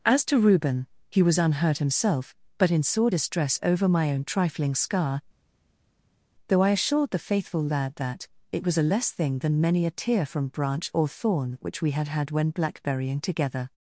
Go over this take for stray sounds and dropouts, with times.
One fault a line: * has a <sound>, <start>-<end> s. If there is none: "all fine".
all fine